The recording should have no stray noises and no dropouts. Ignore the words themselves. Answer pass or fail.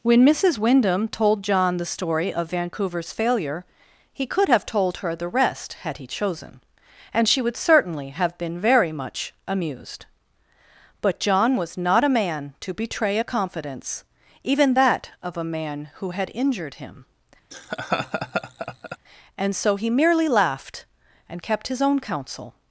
fail